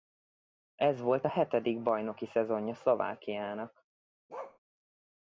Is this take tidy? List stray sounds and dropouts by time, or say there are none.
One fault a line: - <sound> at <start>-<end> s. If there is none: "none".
- bark at 4.3-4.6 s